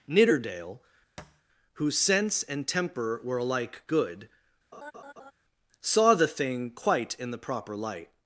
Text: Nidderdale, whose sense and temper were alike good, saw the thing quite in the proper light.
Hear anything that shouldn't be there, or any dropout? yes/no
yes